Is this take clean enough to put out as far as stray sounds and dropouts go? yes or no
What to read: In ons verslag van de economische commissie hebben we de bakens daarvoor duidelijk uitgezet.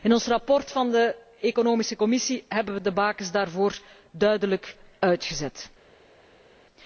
yes